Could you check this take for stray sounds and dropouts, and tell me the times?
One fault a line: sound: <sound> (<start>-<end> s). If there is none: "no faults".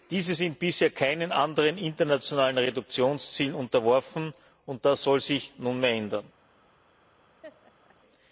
sound: laugh (7.4-8.0 s)